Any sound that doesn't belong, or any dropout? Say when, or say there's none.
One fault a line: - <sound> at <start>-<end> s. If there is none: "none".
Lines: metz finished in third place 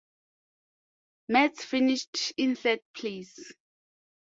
none